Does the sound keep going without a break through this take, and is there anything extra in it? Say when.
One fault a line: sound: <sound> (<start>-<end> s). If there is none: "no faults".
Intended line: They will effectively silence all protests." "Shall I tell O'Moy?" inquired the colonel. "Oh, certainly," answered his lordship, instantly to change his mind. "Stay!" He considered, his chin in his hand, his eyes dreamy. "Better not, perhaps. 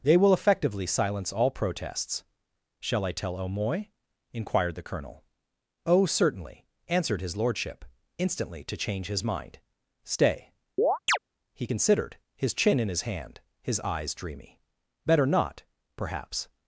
sound: chirp (10.8-11.2 s)